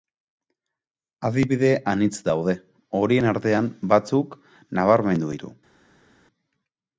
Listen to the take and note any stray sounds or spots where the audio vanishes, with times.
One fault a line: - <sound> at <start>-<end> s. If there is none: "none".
none